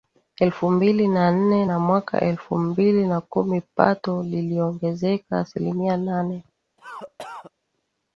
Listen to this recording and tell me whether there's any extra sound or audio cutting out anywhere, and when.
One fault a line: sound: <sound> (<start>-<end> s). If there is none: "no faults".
sound: cough (6.8-7.5 s)